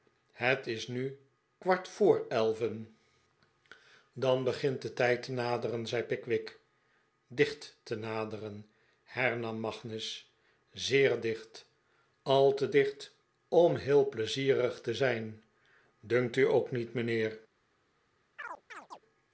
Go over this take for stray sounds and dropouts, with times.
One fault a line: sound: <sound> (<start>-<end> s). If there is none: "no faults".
sound: chirp (18.4-19.0 s)